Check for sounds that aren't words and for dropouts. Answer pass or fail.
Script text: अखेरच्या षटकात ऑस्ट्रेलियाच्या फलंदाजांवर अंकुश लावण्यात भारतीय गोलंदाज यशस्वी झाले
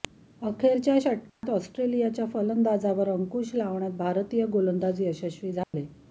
fail